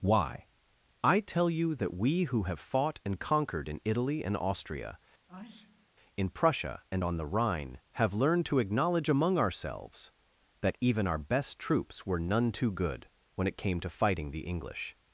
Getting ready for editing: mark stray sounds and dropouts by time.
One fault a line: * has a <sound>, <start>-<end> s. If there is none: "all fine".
* has a sneeze, 5.3-5.9 s